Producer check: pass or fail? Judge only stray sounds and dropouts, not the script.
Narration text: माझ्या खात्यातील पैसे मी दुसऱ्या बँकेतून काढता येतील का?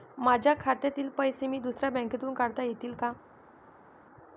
pass